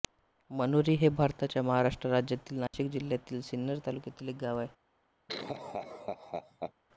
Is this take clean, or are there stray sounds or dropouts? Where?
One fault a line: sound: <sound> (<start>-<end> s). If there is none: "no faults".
sound: dropout (2.7-2.7 s)
sound: laugh (5.3-6.7 s)